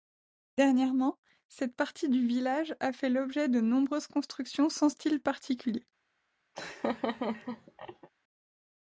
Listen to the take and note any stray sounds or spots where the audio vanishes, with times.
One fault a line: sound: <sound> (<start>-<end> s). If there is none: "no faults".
sound: laugh (6.5-8.1 s)